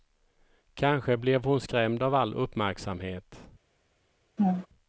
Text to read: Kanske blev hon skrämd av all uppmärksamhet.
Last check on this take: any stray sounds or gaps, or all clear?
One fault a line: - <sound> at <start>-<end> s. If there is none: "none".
- laugh at 4.4-4.7 s